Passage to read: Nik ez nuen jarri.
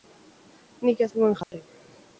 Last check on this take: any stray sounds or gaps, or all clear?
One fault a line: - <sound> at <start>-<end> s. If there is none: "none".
- dropout at 1.4-1.5 s